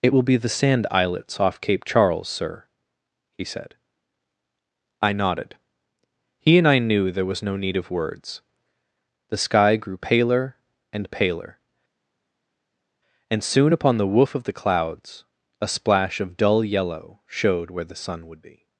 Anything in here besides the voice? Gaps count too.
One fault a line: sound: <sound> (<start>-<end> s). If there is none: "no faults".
no faults